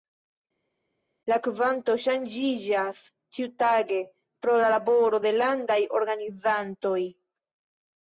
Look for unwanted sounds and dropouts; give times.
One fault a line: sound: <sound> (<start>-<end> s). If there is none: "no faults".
no faults